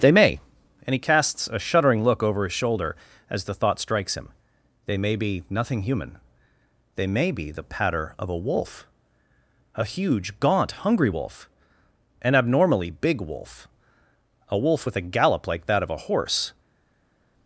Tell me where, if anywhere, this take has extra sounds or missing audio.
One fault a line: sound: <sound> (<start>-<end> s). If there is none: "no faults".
no faults